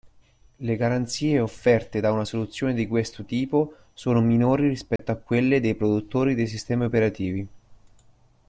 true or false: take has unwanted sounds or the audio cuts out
true